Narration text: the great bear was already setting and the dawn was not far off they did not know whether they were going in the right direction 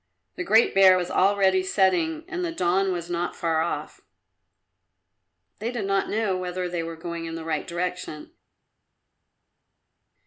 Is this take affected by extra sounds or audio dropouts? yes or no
no